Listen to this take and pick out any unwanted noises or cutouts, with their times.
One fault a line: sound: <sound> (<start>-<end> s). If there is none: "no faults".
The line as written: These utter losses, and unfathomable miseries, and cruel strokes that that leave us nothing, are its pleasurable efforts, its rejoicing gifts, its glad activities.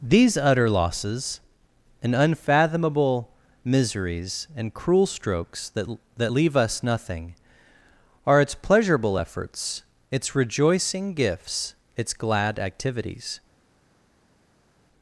no faults